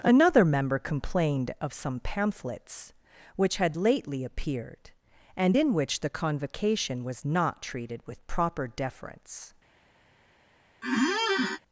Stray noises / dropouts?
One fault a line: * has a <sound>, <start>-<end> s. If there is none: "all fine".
* has a squeak, 10.8-11.6 s